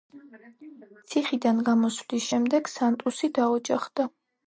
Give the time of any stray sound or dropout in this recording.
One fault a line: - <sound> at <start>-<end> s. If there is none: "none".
none